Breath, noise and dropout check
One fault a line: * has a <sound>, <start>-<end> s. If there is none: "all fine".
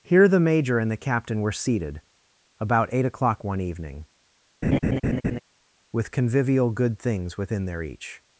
* has a laugh, 4.6-5.4 s